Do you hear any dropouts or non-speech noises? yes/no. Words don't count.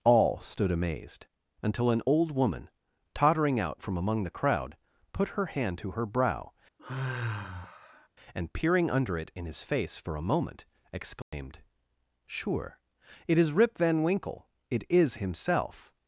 yes